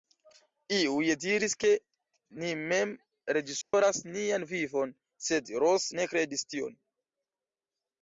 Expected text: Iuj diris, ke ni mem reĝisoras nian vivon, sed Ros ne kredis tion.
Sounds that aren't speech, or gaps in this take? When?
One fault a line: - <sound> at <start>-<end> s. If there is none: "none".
- dropout at 3.6-3.7 s